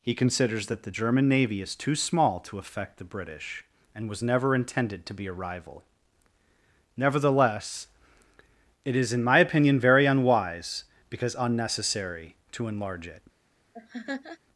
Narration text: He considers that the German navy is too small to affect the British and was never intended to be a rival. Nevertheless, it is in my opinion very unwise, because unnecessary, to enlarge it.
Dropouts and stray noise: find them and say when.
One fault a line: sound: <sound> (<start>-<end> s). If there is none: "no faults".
sound: laugh (13.7-14.4 s)